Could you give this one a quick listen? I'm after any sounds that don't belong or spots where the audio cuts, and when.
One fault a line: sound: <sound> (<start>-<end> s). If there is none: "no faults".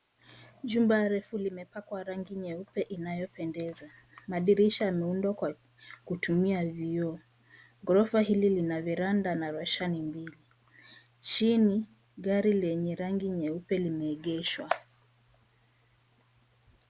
no faults